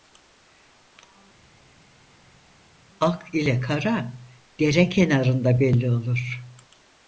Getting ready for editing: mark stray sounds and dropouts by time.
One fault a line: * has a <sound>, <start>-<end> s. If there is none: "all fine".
all fine